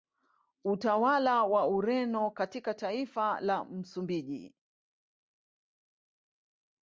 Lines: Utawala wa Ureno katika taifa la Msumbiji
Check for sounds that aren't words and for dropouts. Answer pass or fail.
pass